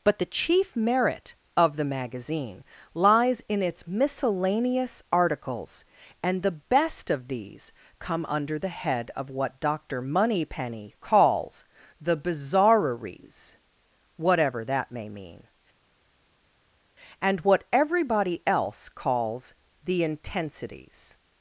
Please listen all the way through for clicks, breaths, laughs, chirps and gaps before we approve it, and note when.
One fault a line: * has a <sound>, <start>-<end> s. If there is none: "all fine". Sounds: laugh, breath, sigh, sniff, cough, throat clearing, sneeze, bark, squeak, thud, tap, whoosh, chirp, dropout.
all fine